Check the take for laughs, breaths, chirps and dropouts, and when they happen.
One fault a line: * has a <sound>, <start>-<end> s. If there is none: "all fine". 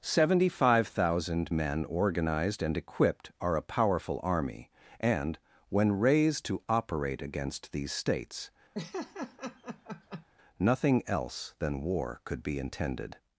* has a laugh, 8.7-10.3 s